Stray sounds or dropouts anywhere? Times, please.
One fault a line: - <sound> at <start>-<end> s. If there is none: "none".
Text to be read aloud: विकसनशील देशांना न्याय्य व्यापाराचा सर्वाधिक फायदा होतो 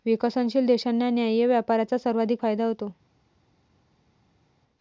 none